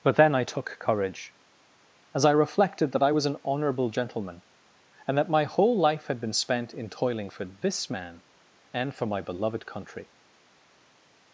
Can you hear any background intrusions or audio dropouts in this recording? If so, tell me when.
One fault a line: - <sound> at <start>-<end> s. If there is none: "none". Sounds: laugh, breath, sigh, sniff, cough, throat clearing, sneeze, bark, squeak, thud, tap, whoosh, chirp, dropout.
none